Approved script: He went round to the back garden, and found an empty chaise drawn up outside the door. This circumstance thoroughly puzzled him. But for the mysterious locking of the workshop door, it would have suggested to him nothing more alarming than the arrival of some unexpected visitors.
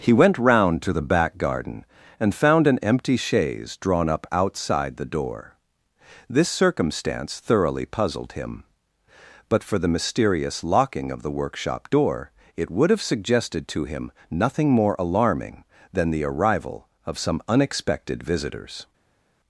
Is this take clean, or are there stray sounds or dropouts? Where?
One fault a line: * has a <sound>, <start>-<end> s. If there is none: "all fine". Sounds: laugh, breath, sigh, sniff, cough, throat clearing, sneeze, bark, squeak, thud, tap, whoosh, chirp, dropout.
all fine